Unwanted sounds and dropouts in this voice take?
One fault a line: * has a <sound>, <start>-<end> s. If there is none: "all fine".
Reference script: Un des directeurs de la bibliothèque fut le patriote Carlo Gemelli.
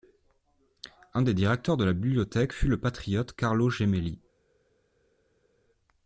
all fine